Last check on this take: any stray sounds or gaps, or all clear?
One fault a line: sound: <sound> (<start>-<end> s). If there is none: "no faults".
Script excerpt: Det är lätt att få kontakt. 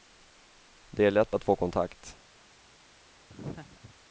sound: laugh (3.3-4.0 s)